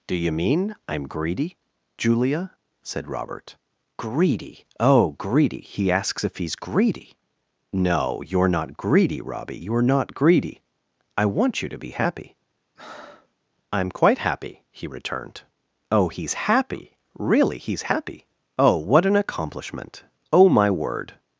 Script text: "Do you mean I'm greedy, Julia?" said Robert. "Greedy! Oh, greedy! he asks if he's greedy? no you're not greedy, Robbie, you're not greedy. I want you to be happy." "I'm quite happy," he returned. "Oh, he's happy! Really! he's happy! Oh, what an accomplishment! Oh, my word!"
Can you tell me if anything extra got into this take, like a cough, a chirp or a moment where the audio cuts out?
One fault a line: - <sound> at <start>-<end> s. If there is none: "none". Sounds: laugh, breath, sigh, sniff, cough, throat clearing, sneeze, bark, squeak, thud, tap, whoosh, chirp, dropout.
- breath at 12.8-13.3 s